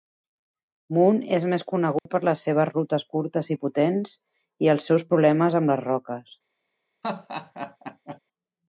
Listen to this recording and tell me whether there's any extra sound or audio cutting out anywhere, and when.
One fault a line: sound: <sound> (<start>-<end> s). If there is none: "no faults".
sound: dropout (2.0-2.1 s)
sound: laugh (7.0-8.2 s)